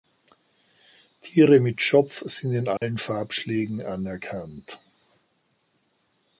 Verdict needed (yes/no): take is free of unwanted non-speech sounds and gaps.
no